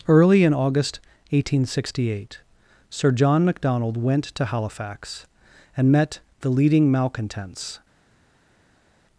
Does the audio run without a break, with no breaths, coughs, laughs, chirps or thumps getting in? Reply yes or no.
yes